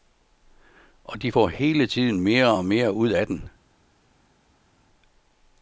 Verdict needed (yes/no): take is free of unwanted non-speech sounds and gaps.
yes